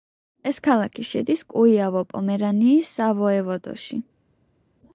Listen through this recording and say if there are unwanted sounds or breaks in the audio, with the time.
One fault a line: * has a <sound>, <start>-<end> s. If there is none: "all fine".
all fine